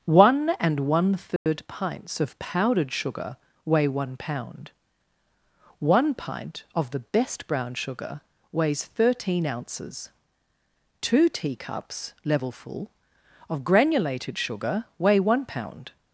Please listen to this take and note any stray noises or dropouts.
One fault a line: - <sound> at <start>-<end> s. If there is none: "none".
- dropout at 1.4-1.5 s